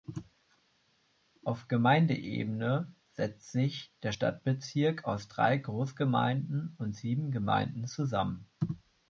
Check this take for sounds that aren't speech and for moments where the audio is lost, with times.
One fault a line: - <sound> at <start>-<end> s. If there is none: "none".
none